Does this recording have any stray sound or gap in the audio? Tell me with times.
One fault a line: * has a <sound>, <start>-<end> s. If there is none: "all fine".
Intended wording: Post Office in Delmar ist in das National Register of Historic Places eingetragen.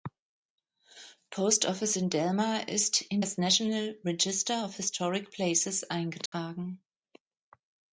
* has a dropout, 6.3-6.3 s